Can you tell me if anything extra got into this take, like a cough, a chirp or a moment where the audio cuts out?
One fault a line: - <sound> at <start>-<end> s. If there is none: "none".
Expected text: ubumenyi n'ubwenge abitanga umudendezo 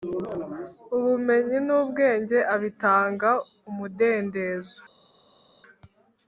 none